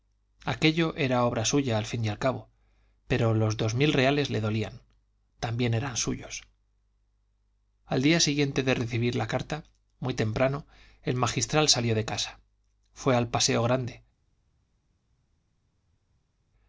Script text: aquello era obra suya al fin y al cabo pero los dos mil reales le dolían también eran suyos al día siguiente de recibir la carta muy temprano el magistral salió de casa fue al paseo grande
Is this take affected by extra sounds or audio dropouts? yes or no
no